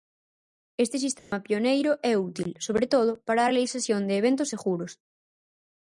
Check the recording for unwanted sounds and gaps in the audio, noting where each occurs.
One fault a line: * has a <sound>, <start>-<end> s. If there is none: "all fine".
* has a dropout, 1.2-1.3 s